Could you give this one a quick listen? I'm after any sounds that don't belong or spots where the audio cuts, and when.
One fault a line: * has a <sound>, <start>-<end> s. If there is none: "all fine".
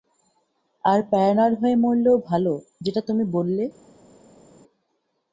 all fine